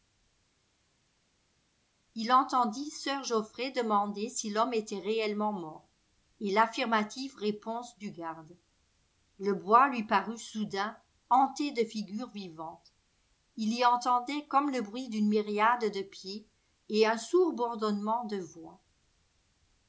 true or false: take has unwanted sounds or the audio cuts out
false